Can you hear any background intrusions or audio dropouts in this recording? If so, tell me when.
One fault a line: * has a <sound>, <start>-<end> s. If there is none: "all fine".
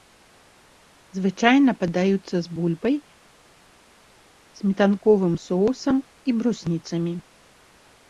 all fine